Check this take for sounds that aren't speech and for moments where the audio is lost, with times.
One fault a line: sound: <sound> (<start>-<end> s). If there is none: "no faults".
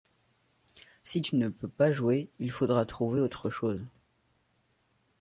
no faults